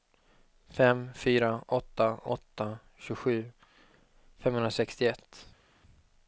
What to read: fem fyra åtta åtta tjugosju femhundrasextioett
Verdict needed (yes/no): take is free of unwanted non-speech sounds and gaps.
yes